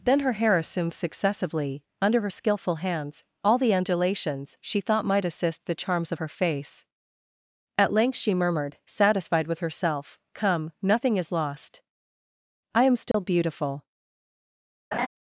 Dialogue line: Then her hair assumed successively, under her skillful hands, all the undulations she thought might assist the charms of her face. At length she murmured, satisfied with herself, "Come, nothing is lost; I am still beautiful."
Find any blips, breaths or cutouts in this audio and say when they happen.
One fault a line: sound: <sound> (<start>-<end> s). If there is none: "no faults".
sound: dropout (13.1-13.1 s)
sound: laugh (14.9-15.1 s)